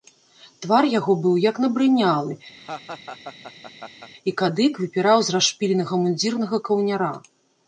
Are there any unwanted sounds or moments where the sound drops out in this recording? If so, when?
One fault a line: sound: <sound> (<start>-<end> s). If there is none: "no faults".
sound: laugh (2.6-4.1 s)